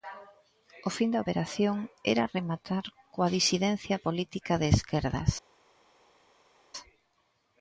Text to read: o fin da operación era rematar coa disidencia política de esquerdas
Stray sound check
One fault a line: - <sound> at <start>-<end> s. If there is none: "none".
none